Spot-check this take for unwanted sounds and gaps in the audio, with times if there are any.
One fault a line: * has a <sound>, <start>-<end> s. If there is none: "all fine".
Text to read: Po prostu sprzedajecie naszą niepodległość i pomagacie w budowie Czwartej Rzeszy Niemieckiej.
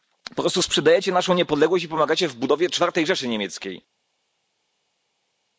all fine